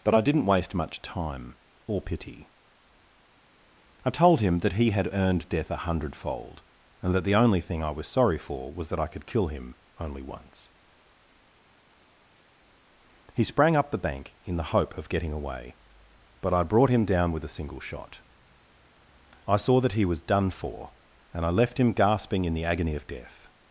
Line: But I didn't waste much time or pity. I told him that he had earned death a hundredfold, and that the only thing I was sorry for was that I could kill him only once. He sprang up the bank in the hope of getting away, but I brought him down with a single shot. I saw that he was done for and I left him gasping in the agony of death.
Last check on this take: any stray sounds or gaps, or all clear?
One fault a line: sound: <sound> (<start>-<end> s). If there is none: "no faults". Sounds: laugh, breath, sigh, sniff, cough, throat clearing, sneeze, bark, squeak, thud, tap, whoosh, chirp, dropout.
no faults